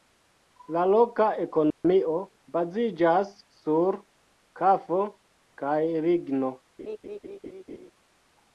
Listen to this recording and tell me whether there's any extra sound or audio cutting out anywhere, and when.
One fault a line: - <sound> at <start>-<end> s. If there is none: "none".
- dropout at 1.7-1.8 s
- laugh at 6.8-7.9 s